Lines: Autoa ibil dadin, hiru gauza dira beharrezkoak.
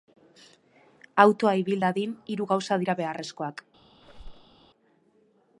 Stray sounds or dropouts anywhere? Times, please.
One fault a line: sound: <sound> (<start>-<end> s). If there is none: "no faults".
sound: squeak (4.0-4.5 s)